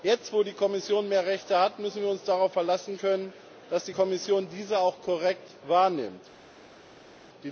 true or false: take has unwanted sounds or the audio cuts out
false